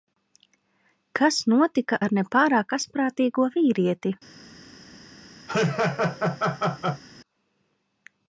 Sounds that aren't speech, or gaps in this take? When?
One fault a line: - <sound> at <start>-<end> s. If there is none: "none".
- laugh at 5.5-7.0 s